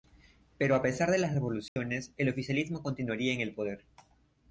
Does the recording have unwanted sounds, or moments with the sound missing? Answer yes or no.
yes